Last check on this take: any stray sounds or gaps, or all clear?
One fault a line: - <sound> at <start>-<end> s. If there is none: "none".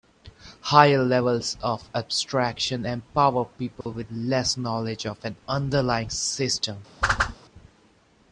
- dropout at 3.8-3.9 s
- whoosh at 7.0-7.4 s